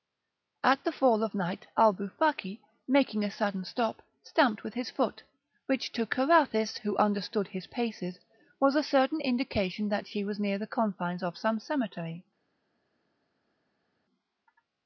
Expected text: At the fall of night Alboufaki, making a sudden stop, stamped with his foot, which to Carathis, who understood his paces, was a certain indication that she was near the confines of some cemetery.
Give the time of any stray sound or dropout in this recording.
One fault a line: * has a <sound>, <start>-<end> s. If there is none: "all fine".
all fine